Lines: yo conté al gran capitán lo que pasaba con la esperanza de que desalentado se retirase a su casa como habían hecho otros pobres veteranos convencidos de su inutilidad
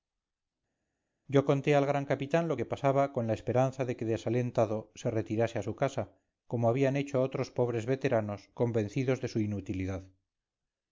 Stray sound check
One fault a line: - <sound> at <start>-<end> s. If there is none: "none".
none